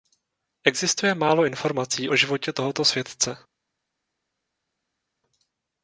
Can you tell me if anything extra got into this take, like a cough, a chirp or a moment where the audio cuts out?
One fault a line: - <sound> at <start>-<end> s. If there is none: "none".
none